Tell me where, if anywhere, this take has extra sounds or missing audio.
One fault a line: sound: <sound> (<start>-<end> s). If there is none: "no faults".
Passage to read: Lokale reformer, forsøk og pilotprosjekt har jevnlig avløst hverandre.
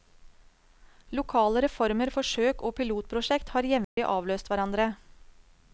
sound: dropout (3.8-4.0 s)